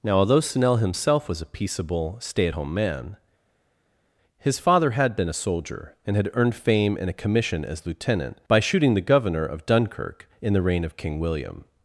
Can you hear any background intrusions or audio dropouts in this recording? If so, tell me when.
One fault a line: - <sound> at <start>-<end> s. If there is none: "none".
none